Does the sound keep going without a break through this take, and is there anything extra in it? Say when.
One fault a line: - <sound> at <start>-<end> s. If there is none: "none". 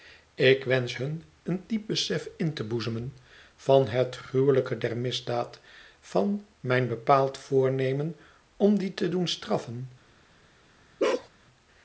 - bark at 11.0-11.3 s